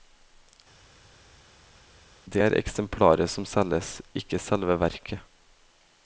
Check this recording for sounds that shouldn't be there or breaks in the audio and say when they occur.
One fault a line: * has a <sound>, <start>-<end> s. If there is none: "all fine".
all fine